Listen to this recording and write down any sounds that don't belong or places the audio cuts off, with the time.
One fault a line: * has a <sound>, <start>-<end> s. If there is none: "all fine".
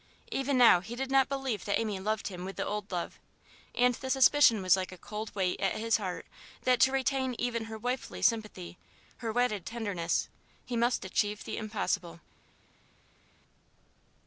all fine